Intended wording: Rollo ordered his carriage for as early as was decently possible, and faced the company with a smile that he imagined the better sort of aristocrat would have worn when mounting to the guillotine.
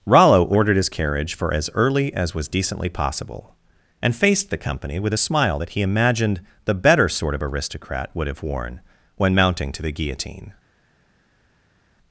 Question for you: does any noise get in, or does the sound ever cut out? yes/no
no